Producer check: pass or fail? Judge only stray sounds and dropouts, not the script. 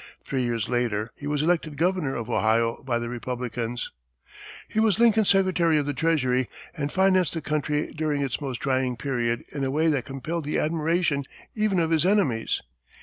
pass